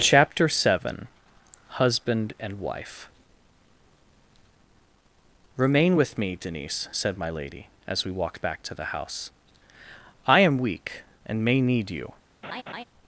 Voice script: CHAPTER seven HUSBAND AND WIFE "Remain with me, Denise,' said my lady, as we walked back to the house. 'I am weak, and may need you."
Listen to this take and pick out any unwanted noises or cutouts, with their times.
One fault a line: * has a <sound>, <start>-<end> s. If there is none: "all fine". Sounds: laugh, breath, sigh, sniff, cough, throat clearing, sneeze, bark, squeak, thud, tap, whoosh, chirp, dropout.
* has a laugh, 12.4-12.8 s